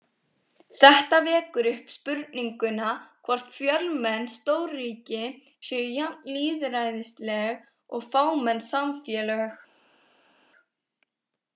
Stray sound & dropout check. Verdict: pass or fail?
pass